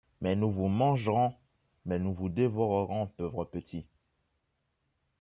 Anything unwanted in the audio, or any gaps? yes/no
no